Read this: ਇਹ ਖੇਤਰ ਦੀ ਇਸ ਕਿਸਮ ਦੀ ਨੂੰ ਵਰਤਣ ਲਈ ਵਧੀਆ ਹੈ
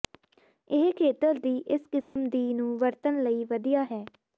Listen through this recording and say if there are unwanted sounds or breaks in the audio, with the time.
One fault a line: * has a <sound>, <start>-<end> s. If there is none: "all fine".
* has a dropout, 2.0-2.2 s